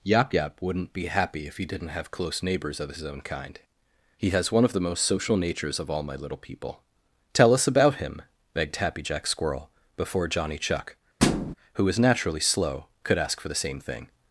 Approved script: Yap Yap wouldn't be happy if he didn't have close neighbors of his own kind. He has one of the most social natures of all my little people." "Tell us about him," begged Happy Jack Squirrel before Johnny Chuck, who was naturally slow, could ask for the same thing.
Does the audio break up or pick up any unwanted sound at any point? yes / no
yes